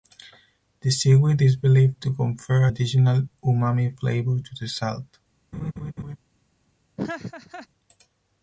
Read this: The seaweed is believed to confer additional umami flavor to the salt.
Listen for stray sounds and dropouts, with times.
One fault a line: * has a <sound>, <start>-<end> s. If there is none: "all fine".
* has a laugh, 5.5-6.2 s
* has a laugh, 7.0-7.7 s